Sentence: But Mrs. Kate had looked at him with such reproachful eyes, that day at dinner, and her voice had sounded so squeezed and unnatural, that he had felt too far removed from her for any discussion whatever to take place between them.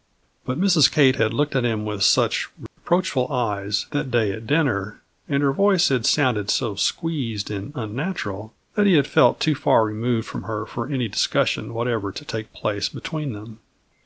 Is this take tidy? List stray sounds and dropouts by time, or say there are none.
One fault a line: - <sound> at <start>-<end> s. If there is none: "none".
- dropout at 2.7-2.8 s